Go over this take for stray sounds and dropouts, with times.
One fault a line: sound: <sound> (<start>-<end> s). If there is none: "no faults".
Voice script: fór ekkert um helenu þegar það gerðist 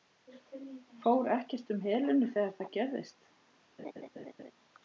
sound: laugh (3.8-4.5 s)